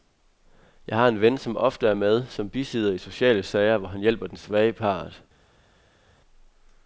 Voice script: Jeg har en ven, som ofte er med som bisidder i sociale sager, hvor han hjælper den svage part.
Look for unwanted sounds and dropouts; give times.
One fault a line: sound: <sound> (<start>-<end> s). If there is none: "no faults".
no faults